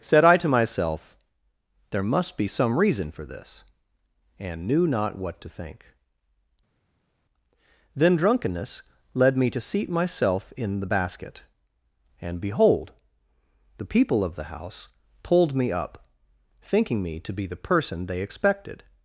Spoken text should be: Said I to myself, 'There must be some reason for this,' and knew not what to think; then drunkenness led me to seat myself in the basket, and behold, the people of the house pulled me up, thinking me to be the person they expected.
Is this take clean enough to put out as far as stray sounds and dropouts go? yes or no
yes